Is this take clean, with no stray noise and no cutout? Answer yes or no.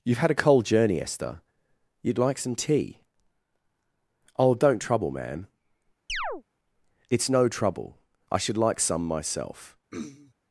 no